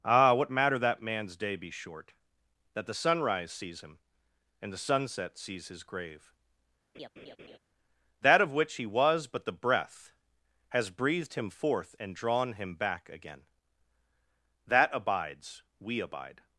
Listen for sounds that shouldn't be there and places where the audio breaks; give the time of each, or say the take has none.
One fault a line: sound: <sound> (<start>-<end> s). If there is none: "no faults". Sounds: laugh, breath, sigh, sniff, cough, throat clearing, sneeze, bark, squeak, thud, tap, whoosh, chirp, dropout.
sound: laugh (6.9-7.6 s)